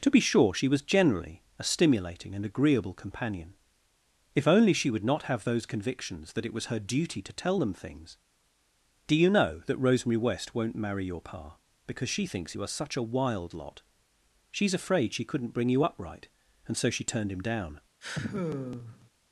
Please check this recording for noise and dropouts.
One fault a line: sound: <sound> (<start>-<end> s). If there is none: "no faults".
sound: sigh (18.0-19.1 s)